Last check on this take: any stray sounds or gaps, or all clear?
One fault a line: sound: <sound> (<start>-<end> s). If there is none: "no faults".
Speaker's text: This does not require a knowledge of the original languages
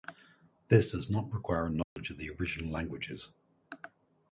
sound: dropout (1.8-2.0 s)